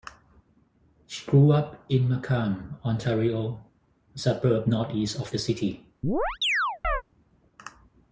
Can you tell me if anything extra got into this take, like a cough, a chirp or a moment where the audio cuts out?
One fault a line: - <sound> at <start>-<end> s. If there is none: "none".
- chirp at 6.0-7.0 s